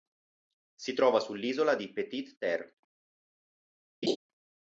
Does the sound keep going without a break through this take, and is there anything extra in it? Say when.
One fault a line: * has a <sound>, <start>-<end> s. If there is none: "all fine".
* has a laugh, 4.0-4.2 s